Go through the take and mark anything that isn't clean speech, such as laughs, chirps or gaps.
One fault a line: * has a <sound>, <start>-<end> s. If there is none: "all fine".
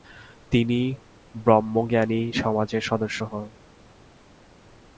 all fine